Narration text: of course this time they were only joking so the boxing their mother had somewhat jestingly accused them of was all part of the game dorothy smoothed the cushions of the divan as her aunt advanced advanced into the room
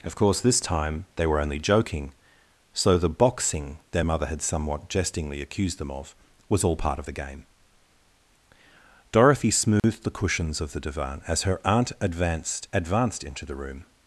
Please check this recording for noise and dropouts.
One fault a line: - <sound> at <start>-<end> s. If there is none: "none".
- dropout at 9.8-9.8 s